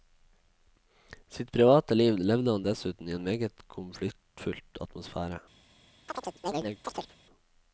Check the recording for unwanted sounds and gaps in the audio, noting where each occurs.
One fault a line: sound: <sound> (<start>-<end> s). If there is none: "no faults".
sound: chirp (6.1-7.2 s)